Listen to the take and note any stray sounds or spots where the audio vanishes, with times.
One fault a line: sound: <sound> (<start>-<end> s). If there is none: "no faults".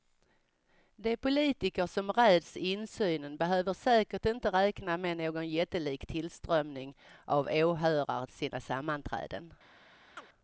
sound: chirp (10.2-10.3 s)